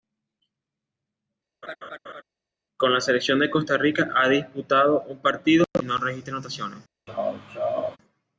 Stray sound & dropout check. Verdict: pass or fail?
fail